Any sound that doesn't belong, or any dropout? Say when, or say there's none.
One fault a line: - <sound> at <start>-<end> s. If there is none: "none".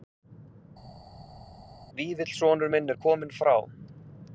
none